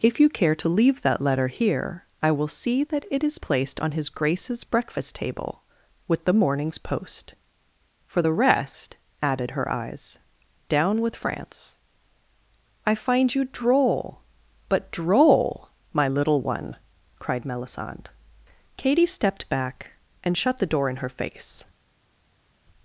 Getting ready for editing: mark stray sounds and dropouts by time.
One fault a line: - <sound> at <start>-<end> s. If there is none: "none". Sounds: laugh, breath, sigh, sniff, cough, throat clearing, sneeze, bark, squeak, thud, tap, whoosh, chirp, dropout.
none